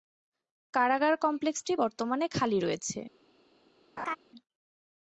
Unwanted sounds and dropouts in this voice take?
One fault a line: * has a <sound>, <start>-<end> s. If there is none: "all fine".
* has a laugh, 4.0-4.2 s